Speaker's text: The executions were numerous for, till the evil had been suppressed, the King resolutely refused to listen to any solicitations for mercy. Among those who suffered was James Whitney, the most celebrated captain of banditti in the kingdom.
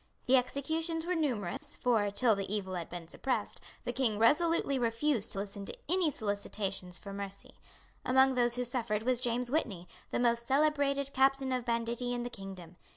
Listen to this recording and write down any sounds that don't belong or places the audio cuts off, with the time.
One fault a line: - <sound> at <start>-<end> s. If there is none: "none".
- dropout at 1.6-1.6 s